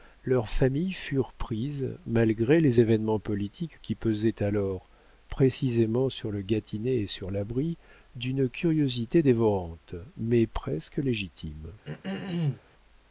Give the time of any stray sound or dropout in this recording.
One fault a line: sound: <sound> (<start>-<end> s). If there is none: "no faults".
sound: throat clearing (11.8-12.6 s)